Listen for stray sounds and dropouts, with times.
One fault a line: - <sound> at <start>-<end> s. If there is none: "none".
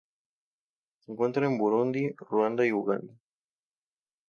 none